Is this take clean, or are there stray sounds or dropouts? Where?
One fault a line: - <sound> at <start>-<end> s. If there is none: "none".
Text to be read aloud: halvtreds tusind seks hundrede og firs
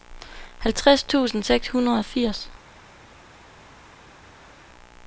none